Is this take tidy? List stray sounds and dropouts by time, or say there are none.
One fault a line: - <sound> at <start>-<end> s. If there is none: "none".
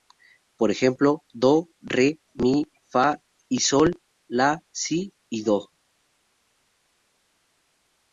none